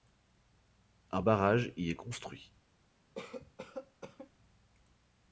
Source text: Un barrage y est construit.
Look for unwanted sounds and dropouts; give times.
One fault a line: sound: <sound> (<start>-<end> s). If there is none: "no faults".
sound: cough (3.2-4.3 s)